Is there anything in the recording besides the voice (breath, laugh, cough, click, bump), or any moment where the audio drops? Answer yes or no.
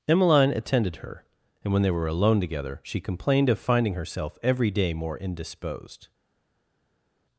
no